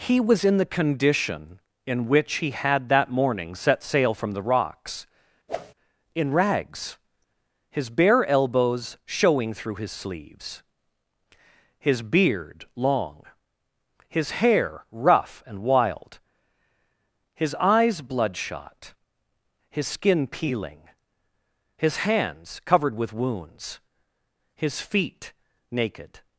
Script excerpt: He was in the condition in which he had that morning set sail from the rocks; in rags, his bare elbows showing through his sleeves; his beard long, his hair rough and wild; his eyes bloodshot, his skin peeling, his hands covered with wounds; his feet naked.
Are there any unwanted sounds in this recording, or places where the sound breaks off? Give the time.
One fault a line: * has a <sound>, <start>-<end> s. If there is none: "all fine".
* has a whoosh, 5.5-5.7 s